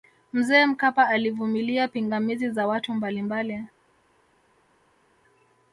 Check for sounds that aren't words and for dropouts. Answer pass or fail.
pass